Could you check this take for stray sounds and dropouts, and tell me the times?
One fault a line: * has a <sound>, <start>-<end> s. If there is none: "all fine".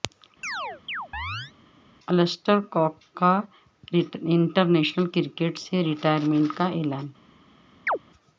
* has a chirp, 0.4-1.5 s
* has a chirp, 7.9-8.0 s